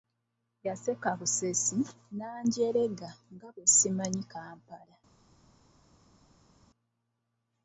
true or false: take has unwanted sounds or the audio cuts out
false